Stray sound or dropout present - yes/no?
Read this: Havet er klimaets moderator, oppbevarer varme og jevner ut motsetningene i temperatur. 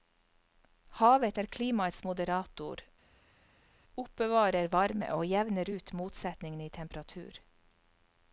no